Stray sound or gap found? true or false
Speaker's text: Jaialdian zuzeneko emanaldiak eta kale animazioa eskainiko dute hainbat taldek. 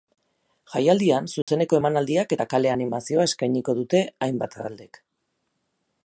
true